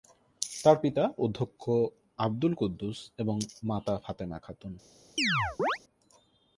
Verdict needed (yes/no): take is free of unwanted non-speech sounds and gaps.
no